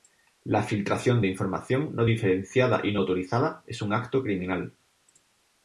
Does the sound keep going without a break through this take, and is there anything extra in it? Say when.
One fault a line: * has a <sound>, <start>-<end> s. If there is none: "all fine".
all fine